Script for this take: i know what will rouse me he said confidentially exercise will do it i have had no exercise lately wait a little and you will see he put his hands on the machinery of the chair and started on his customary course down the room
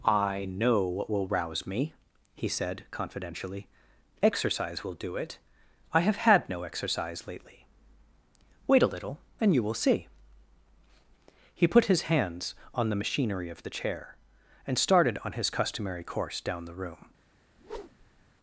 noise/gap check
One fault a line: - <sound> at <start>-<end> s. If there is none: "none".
- whoosh at 17.6-18.3 s